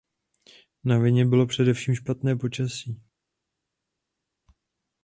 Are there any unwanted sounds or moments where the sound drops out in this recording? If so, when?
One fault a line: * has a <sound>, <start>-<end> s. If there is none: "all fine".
all fine